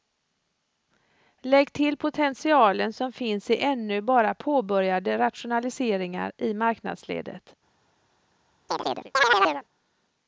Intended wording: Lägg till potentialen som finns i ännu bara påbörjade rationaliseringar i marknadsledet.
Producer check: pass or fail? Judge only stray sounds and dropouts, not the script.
fail